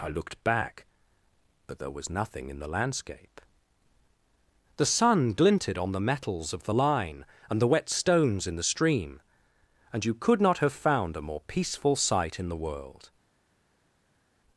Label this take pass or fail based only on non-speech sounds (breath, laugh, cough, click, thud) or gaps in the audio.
pass